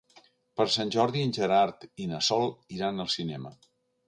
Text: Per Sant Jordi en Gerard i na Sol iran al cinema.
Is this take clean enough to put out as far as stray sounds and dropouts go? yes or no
yes